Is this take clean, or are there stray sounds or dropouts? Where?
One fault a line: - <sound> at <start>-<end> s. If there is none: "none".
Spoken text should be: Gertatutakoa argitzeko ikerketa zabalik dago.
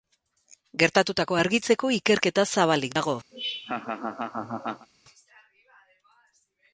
- laugh at 3.3-4.9 s